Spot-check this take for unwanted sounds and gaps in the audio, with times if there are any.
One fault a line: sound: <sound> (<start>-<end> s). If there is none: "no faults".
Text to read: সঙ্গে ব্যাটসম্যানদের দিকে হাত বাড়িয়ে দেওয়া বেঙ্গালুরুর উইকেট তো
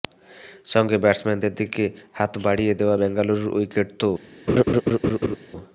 sound: laugh (4.5-5.4 s)